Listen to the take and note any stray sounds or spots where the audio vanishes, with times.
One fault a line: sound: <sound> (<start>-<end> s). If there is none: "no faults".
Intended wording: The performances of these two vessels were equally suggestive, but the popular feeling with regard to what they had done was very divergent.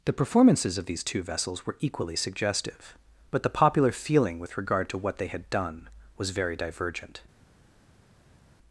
no faults